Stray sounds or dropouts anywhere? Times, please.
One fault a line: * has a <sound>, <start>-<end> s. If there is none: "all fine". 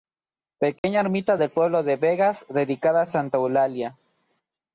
* has a dropout, 0.8-0.8 s